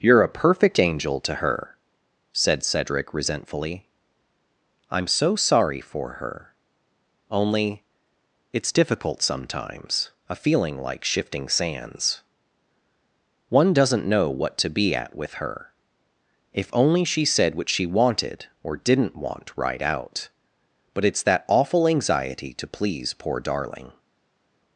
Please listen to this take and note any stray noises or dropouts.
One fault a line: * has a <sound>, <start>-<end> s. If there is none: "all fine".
all fine